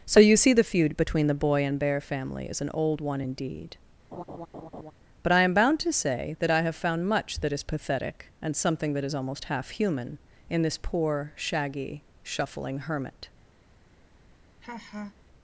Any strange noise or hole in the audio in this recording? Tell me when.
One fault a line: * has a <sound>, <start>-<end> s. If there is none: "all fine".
* has a laugh, 4.1-4.9 s
* has a laugh, 14.6-15.1 s